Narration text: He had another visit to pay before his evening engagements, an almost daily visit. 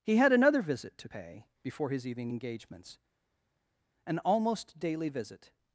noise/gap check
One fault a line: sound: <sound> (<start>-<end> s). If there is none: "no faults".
no faults